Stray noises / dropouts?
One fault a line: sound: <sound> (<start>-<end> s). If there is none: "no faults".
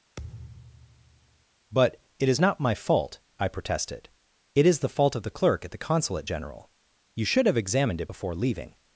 sound: thud (0.2-1.5 s)